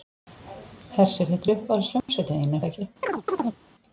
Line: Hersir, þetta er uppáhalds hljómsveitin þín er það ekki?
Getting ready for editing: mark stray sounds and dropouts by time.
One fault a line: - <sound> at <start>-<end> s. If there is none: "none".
- dropout at 2.0-2.1 s
- chirp at 3.0-3.6 s